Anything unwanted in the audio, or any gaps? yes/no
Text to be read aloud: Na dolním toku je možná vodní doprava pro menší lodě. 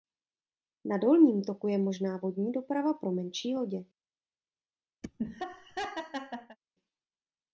yes